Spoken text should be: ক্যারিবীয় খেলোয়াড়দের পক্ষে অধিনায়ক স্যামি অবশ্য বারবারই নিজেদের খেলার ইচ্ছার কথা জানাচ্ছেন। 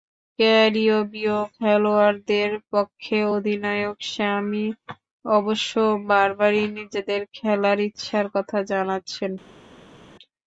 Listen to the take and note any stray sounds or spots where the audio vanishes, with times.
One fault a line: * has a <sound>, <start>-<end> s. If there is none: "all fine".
all fine